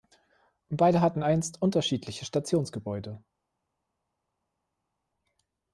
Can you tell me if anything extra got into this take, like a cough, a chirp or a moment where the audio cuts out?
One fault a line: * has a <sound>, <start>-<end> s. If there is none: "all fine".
all fine